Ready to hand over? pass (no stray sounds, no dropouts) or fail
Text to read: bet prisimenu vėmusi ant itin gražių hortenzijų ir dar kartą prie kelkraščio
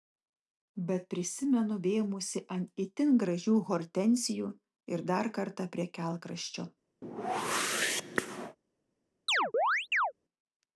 fail